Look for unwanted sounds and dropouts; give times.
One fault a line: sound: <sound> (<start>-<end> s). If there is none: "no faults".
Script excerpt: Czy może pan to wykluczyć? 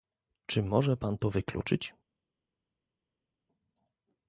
no faults